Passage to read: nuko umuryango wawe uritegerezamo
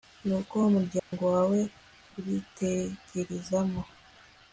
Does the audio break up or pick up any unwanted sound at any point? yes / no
yes